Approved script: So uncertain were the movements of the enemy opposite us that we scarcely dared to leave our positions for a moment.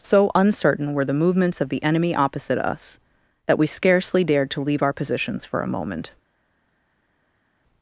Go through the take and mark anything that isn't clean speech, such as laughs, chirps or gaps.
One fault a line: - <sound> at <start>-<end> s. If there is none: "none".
none